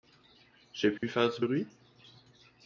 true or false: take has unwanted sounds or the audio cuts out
true